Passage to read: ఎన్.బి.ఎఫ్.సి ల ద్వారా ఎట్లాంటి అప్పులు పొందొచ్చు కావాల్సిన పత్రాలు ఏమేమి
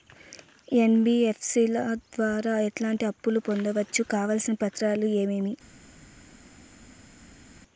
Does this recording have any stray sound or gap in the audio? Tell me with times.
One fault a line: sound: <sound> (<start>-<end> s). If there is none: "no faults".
no faults